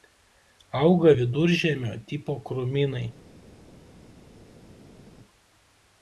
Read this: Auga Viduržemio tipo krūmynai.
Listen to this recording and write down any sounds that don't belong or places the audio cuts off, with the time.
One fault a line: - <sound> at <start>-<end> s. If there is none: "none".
none